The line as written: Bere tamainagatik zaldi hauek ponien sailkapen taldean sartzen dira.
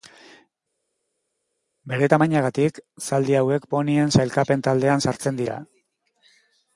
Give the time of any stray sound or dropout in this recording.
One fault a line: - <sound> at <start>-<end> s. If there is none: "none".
none